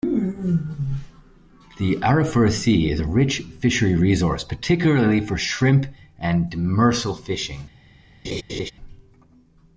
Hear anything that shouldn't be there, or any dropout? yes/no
yes